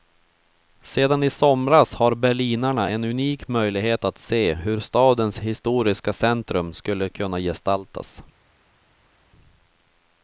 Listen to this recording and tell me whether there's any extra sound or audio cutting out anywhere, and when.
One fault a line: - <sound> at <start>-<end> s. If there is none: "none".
none